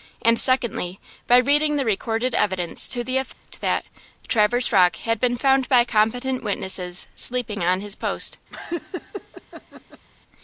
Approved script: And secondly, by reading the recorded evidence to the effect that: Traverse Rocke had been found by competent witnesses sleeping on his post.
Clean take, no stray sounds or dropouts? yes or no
no